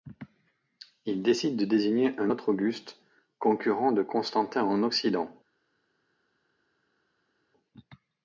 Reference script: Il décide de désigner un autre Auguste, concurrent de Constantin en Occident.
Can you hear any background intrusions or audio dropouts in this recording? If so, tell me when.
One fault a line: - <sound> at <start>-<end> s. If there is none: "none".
none